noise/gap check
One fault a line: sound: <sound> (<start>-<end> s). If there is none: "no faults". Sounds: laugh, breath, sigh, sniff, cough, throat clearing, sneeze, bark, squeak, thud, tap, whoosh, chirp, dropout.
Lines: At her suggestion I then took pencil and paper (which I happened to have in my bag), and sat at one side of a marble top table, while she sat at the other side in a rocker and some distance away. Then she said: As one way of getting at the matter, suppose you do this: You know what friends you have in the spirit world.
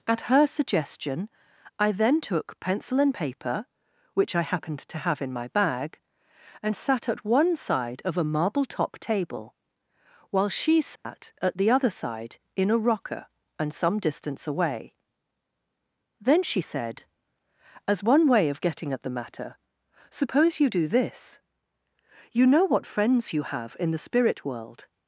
sound: dropout (11.0-11.0 s)